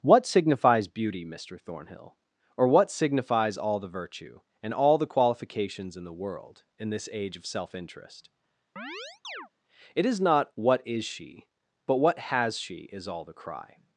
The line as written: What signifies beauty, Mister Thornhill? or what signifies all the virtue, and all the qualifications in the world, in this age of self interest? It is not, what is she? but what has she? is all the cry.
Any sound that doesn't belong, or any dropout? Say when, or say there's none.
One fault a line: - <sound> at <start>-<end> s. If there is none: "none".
- chirp at 8.8-9.5 s